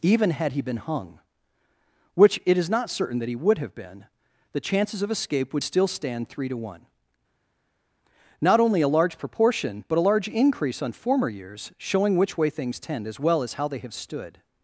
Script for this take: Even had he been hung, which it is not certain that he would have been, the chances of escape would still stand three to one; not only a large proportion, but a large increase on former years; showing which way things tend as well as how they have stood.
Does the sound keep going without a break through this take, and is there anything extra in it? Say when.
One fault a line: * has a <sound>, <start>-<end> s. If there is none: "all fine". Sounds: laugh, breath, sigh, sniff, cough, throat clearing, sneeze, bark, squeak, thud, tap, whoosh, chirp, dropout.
all fine